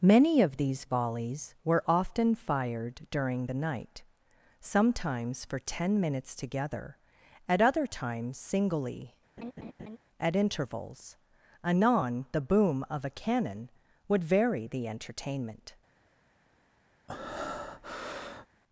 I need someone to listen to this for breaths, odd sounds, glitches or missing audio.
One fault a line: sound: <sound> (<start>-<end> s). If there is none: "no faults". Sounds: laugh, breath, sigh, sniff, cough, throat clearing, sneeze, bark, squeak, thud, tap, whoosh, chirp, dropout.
sound: laugh (9.4-10.0 s)
sound: breath (17.1-18.5 s)